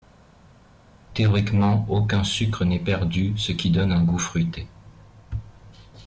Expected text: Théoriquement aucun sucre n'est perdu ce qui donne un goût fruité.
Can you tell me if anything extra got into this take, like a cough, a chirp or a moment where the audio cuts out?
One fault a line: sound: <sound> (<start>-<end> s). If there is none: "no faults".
no faults